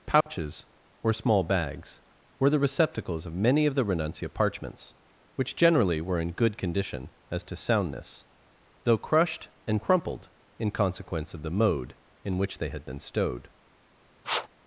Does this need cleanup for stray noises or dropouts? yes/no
yes